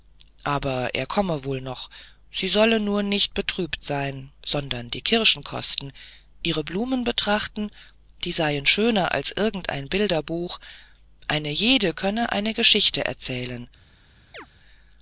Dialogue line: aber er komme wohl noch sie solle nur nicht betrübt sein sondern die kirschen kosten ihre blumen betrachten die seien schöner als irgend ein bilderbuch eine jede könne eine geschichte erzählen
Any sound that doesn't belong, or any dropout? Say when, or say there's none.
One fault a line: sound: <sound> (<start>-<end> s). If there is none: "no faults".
sound: chirp (14.3-14.5 s)